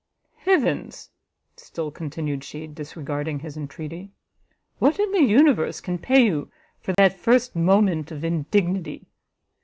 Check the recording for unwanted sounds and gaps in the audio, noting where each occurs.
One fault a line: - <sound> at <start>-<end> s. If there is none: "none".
- dropout at 6.9-7.0 s